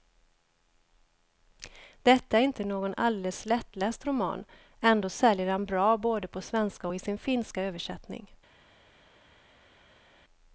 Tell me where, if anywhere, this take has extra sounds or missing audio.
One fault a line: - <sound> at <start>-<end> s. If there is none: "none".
none